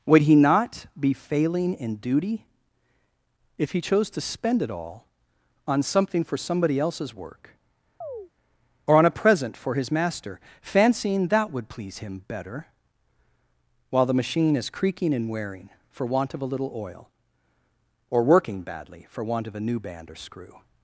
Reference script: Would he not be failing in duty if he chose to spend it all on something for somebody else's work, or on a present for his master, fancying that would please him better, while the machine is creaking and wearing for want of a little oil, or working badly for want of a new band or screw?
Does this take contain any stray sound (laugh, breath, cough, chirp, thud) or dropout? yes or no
yes